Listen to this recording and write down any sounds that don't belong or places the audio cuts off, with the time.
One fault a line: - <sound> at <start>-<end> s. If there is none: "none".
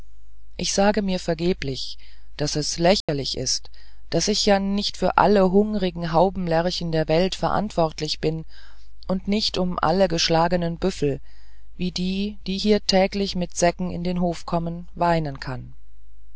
- dropout at 3.0-3.1 s